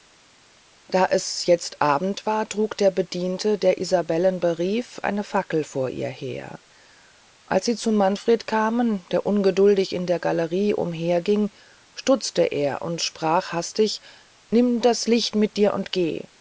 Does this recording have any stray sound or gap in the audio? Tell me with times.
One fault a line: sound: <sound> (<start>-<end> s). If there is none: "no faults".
no faults